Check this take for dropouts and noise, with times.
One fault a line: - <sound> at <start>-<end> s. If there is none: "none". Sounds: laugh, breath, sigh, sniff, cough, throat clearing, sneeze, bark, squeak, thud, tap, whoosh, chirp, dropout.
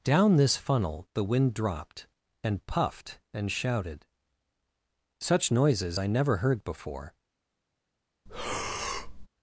- breath at 8.3-9.3 s